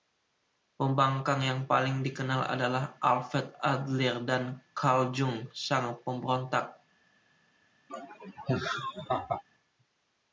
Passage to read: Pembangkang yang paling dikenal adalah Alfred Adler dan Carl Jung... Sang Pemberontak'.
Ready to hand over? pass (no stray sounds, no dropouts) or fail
fail